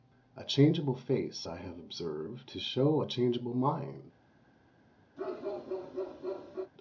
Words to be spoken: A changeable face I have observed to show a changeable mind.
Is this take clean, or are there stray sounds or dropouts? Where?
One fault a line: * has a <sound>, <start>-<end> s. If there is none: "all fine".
* has a bark, 5.2-6.7 s